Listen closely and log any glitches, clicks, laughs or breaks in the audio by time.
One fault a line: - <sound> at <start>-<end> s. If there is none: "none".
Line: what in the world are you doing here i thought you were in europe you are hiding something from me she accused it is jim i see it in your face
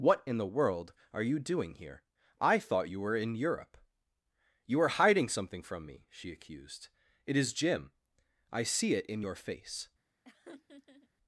- laugh at 10.2-11.1 s